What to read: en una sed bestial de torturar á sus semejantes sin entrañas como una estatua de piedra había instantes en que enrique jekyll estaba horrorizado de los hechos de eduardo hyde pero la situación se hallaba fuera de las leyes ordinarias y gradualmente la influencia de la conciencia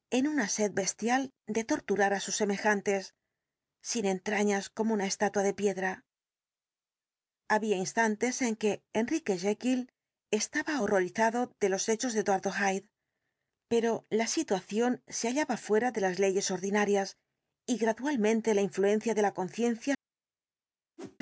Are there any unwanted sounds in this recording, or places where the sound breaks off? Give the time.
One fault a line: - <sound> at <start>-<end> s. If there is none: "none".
- whoosh at 21.0-21.2 s